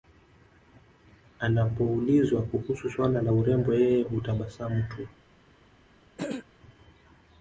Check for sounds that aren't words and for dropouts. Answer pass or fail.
fail